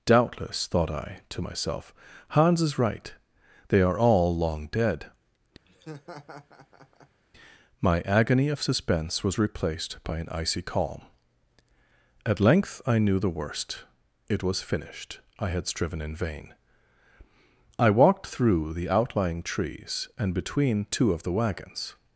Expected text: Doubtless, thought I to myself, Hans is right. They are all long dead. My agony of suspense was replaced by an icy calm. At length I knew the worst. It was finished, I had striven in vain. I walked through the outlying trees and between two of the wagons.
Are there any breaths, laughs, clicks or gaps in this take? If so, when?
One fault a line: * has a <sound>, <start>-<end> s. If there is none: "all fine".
* has a laugh, 5.7-7.2 s